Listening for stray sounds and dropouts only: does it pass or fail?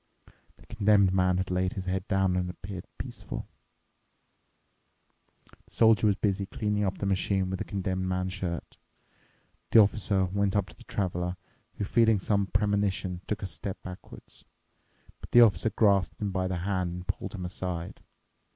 pass